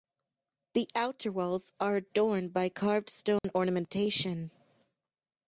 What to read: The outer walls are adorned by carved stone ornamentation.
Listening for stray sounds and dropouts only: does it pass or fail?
fail